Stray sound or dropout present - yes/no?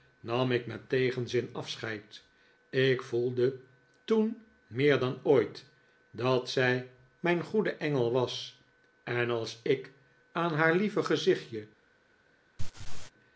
yes